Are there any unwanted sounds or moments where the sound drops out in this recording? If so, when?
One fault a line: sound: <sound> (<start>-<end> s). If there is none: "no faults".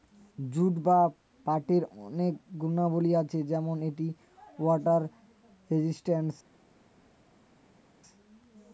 no faults